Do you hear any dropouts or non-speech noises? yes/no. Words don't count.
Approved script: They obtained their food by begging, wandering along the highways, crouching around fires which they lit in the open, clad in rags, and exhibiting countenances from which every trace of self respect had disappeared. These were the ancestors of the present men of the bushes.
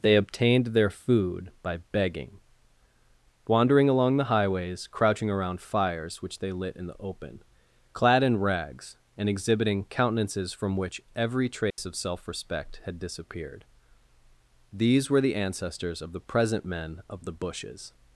yes